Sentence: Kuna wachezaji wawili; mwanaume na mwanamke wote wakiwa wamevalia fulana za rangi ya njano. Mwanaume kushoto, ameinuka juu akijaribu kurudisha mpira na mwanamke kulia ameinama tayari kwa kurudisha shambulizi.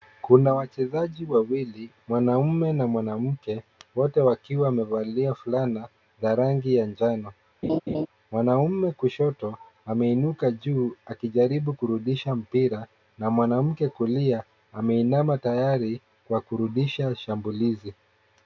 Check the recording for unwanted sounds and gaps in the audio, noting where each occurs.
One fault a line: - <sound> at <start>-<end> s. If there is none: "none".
- laugh at 7.6-8.1 s